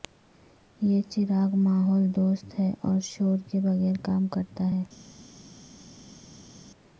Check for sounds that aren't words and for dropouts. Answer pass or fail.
pass